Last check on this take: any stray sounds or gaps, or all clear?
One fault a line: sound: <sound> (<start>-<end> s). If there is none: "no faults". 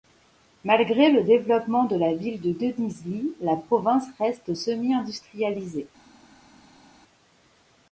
no faults